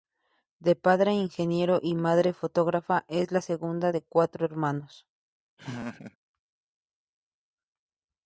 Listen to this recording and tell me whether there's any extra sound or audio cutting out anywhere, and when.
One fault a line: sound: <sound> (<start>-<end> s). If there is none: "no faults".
sound: laugh (5.6-6.2 s)